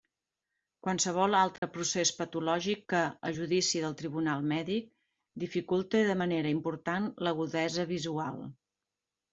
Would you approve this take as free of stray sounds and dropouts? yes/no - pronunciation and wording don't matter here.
no